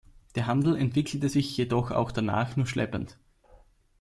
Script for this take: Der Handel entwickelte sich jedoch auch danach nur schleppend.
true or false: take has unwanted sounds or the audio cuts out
false